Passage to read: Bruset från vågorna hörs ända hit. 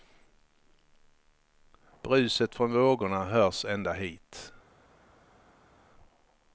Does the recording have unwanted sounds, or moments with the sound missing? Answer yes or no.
no